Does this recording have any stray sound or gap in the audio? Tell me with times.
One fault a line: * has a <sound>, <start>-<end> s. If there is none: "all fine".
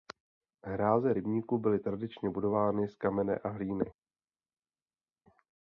all fine